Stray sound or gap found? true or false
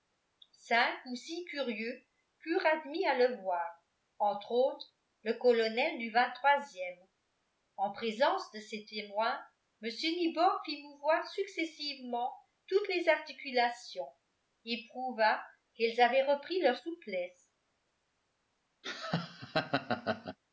true